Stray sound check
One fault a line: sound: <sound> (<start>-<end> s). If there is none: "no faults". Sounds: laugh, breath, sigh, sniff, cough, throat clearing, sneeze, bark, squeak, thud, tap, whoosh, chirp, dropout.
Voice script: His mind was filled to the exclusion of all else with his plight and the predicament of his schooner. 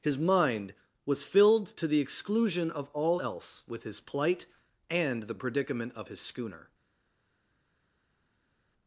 no faults